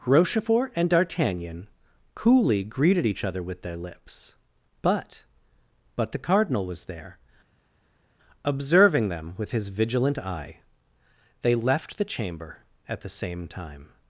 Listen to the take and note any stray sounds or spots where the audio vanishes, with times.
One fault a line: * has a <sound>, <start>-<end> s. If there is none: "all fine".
all fine